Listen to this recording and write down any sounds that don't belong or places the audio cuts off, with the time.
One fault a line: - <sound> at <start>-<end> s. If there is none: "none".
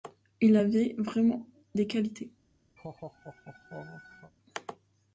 - laugh at 2.8-4.3 s